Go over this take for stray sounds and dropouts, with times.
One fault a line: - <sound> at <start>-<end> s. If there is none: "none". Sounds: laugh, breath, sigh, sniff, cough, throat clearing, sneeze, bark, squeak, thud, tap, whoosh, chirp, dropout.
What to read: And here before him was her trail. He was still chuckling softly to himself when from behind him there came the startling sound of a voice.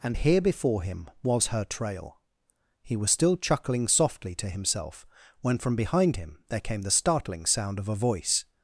none